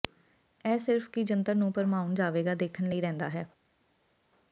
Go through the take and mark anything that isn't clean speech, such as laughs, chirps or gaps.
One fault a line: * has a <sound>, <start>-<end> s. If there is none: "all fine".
all fine